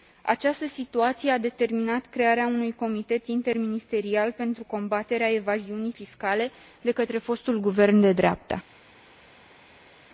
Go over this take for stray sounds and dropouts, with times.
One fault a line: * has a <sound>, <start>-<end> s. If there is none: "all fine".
all fine